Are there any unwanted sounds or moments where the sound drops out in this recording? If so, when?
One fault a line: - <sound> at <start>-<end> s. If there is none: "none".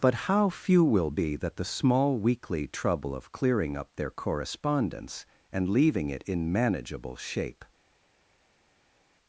none